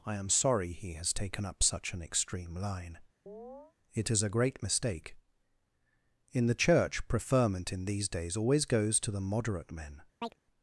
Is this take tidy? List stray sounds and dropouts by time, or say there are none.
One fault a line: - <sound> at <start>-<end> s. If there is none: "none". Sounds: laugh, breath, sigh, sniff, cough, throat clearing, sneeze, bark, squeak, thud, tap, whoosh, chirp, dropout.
- chirp at 3.3-3.7 s
- chirp at 10.2-10.4 s